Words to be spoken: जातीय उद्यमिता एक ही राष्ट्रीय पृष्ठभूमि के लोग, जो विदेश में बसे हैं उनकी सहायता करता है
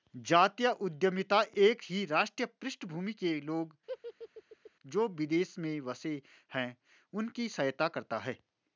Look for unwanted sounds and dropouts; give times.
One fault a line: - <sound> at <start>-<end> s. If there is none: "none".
- laugh at 3.9-4.7 s